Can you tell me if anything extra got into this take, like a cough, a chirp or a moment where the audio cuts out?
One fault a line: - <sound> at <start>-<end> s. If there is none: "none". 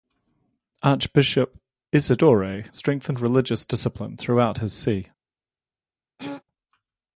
- throat clearing at 6.2-6.4 s